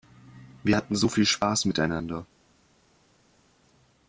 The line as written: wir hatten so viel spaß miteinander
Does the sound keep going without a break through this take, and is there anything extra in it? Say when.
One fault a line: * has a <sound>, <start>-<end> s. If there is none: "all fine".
all fine